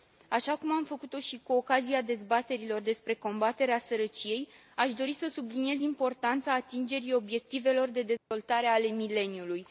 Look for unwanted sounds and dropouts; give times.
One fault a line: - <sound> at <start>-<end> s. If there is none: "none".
- dropout at 8.2-8.3 s